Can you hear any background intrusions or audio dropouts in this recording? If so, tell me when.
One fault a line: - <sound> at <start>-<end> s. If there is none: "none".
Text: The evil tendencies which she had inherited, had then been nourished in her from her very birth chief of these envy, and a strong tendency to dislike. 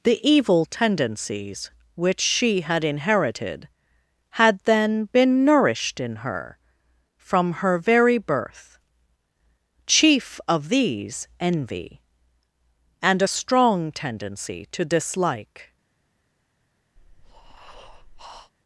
- breath at 17.0-18.5 s